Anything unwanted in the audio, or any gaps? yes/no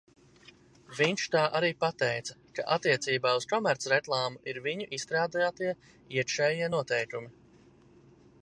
no